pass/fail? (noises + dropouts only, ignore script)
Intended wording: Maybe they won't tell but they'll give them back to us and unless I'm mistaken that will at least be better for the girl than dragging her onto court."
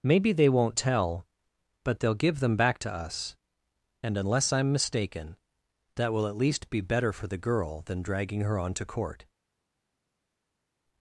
pass